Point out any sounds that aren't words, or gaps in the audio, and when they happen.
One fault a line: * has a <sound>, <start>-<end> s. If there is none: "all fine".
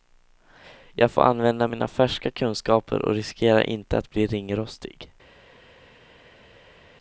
all fine